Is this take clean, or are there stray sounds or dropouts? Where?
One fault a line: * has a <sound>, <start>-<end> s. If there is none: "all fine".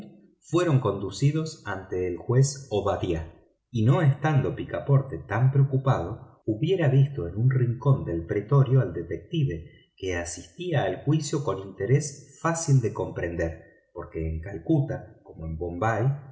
all fine